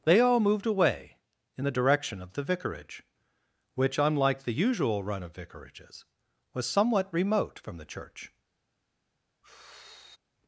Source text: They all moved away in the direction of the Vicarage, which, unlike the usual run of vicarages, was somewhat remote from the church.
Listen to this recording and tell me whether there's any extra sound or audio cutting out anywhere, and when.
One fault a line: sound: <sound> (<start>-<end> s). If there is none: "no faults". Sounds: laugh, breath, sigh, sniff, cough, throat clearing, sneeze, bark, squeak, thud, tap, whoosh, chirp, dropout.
sound: sigh (9.4-10.2 s)